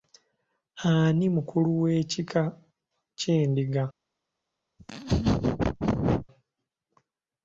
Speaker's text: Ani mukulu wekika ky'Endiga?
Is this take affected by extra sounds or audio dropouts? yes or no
yes